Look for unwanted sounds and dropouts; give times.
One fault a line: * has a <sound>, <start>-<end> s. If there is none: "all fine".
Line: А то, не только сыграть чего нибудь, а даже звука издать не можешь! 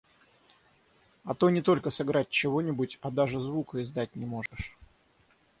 * has a dropout, 4.5-4.5 s